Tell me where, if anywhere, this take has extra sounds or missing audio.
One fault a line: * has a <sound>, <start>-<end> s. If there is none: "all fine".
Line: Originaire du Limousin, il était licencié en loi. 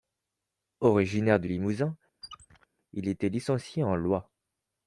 * has a squeak, 2.2-2.7 s